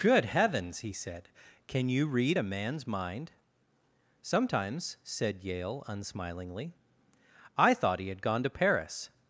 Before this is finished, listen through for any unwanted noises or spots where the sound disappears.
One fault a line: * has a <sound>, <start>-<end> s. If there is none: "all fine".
all fine